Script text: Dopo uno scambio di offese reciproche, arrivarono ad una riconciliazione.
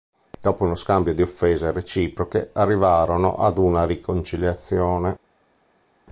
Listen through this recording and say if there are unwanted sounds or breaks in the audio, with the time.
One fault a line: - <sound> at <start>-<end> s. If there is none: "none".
none